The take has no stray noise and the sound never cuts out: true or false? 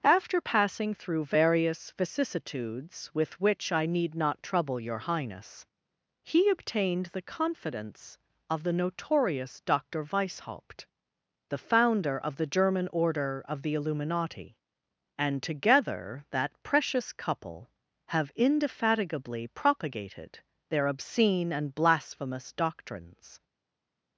true